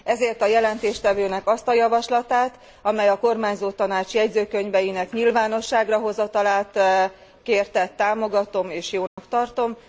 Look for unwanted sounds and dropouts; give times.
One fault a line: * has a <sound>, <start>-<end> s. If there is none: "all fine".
* has a dropout, 9.1-9.2 s